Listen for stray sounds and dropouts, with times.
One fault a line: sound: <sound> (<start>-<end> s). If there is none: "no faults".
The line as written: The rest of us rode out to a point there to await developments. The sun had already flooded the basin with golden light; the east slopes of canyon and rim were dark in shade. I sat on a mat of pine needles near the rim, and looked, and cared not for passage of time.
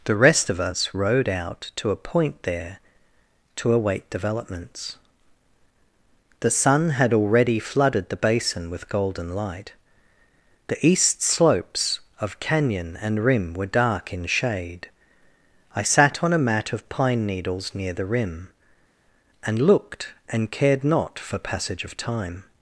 no faults